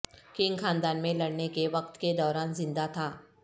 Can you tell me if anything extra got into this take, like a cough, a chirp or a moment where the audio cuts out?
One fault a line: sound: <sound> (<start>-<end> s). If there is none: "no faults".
no faults